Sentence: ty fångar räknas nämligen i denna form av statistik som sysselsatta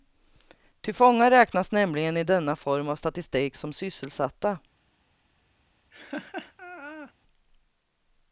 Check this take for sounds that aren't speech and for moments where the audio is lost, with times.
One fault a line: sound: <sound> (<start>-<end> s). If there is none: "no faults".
sound: laugh (5.9-7.1 s)